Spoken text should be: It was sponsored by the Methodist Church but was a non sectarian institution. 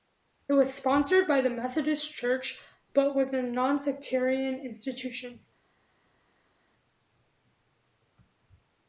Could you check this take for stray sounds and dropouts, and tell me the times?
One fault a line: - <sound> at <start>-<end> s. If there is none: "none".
none